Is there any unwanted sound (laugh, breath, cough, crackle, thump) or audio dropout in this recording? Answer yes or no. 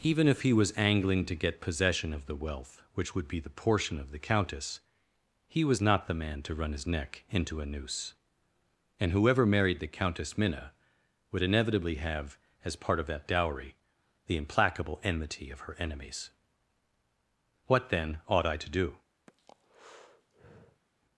yes